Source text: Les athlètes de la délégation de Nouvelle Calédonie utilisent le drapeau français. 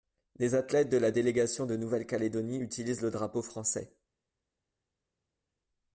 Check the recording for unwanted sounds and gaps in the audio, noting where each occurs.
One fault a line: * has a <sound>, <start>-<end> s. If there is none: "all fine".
all fine